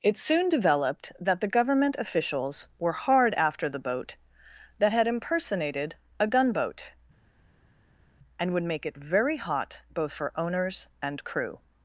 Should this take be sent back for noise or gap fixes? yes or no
no